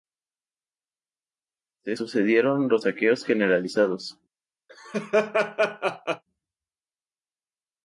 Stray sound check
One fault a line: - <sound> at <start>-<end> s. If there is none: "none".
- laugh at 4.7-6.2 s